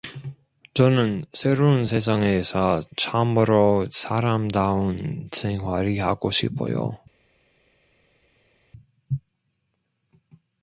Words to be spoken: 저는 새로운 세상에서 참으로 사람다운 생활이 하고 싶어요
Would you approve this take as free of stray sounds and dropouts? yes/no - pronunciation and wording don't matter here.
yes